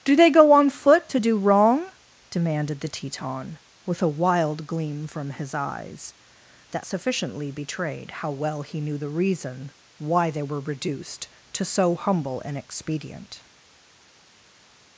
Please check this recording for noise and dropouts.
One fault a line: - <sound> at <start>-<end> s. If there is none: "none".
none